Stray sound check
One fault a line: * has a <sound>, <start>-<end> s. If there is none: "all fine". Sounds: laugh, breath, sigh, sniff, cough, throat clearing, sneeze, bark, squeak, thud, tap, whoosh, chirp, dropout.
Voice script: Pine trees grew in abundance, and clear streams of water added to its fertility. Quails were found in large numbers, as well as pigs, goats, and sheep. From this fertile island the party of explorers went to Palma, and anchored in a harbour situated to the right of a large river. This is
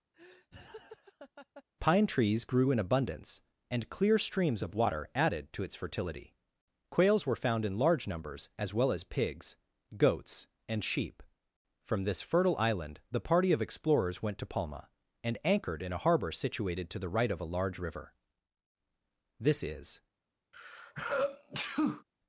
* has a laugh, 0.1-1.6 s
* has a sneeze, 20.5-22.0 s